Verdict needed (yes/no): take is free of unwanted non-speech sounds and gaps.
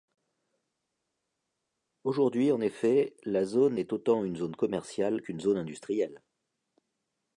yes